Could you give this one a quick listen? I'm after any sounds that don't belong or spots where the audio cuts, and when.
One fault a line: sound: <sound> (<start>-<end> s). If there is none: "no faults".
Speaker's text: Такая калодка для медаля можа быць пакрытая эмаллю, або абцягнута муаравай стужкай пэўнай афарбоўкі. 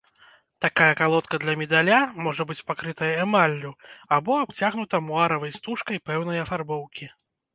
no faults